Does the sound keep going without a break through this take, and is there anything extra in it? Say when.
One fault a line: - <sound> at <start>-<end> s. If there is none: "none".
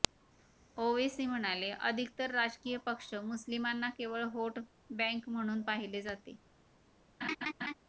- laugh at 7.2-7.7 s